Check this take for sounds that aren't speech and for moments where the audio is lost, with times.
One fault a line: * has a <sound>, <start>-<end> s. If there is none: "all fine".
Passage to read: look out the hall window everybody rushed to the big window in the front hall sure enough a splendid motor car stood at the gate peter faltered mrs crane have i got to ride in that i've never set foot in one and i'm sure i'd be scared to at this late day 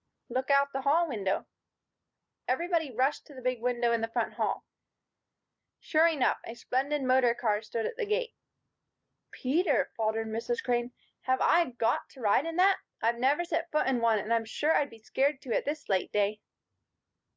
all fine